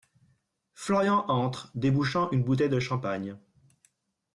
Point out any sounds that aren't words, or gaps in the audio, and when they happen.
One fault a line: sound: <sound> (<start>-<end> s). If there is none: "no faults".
no faults